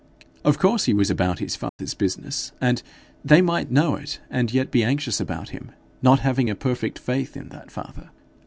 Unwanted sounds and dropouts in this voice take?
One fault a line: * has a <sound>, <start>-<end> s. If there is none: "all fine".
* has a dropout, 1.7-1.8 s